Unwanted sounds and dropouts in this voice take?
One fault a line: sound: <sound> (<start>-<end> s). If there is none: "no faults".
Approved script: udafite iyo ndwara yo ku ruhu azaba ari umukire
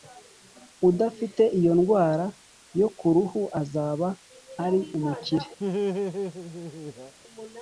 sound: laugh (5.6-7.1 s)